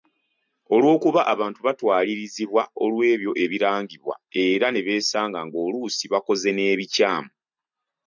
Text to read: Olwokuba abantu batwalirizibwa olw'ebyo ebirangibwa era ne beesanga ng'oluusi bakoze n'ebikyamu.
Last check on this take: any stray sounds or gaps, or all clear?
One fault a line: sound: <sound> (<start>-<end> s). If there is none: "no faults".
no faults